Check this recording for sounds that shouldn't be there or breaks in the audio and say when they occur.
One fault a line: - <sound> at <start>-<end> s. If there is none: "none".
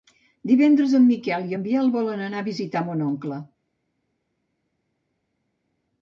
none